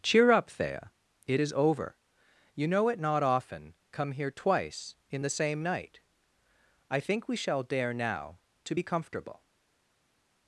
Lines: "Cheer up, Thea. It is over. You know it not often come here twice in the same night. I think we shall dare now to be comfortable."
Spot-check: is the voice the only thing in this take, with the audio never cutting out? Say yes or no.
yes